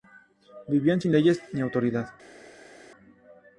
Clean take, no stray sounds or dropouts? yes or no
yes